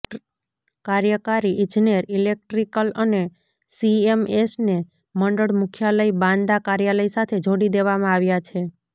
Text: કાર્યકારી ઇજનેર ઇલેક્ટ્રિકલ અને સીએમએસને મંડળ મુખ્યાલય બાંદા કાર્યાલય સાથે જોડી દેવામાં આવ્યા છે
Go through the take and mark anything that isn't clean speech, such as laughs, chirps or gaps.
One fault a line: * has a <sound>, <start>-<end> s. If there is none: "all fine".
all fine